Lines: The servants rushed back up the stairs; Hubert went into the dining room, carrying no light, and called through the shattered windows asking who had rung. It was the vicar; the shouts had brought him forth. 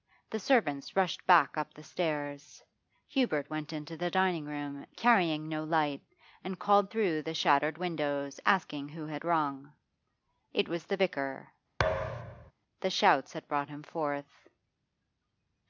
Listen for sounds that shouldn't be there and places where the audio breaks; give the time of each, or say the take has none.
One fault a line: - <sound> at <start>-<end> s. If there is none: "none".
- thud at 11.8-12.5 s